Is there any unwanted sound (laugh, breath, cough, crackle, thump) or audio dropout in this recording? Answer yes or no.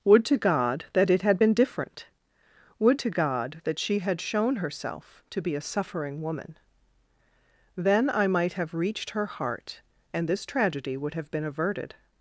no